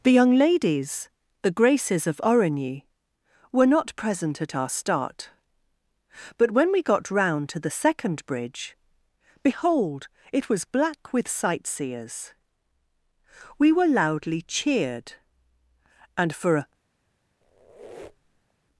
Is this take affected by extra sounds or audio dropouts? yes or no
yes